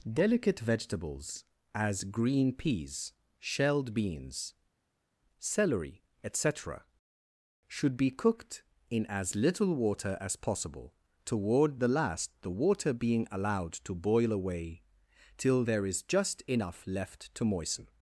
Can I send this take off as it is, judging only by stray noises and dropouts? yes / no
yes